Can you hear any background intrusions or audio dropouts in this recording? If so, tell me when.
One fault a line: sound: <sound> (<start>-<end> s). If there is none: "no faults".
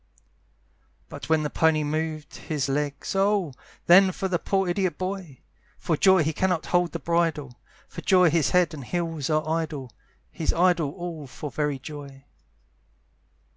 no faults